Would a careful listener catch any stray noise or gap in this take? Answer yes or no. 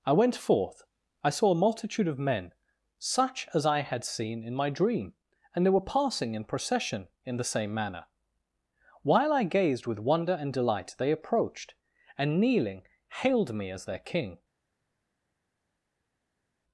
no